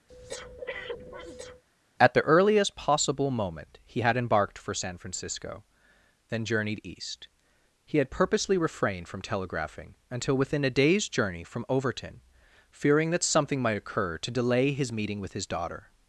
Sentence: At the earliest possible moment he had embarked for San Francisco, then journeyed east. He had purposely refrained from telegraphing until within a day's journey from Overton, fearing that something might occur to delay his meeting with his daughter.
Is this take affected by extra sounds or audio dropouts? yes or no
yes